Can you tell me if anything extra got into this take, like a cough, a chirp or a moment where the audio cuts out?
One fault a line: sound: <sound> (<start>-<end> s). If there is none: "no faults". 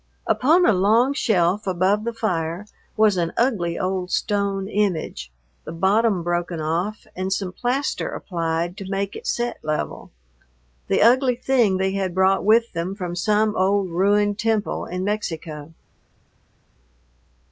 no faults